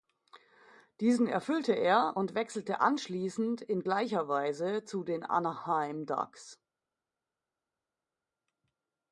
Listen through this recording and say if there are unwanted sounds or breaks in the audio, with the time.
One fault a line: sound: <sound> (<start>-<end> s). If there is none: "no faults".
no faults